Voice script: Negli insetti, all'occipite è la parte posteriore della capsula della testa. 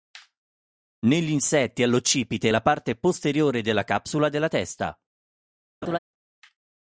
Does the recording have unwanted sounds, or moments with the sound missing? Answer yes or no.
yes